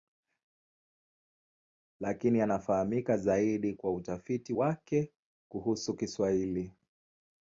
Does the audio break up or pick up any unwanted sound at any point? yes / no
no